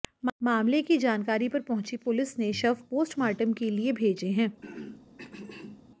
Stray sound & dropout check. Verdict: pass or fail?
fail